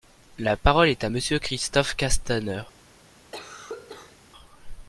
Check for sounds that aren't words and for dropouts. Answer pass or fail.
fail